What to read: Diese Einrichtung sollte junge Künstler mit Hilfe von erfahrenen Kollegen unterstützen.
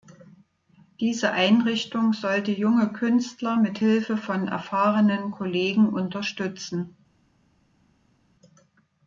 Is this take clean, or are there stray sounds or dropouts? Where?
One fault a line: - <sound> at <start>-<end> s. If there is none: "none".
none